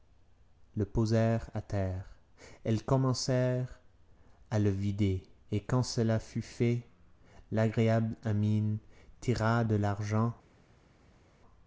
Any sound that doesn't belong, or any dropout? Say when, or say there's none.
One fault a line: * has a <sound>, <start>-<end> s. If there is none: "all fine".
all fine